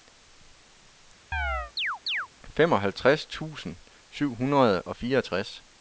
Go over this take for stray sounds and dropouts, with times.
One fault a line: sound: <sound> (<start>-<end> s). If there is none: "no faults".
sound: chirp (1.3-2.3 s)